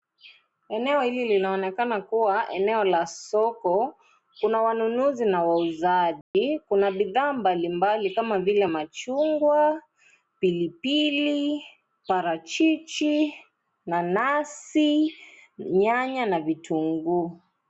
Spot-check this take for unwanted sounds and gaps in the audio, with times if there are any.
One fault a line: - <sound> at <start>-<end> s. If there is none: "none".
- dropout at 6.2-6.3 s